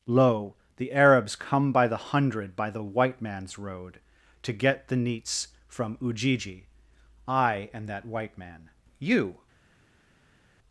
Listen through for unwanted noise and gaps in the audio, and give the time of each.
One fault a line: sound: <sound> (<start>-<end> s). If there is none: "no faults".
no faults